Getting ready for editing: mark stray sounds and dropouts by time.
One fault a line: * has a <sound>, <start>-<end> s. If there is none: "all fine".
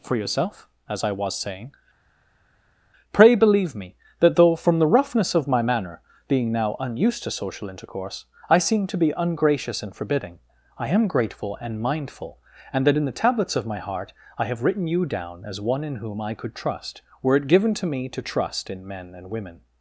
all fine